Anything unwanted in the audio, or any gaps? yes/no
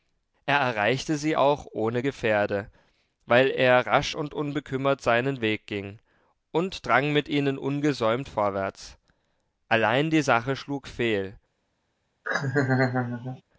yes